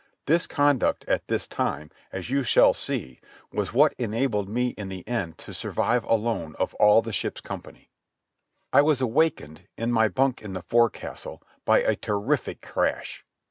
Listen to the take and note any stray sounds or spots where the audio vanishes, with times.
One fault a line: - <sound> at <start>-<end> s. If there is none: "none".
none